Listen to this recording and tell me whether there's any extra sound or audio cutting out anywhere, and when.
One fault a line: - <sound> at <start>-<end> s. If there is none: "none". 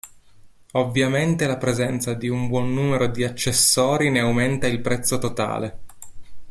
none